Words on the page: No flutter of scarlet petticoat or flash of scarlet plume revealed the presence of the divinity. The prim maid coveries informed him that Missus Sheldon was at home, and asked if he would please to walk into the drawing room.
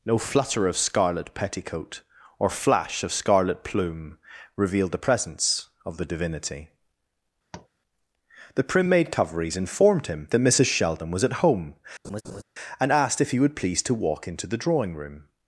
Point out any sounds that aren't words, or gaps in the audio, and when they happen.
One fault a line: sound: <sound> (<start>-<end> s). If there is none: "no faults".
sound: tap (7.5-7.7 s)
sound: laugh (12.0-12.4 s)